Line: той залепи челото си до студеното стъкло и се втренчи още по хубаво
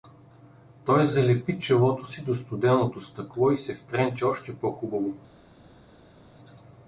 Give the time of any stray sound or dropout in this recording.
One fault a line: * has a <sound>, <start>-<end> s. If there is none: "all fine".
all fine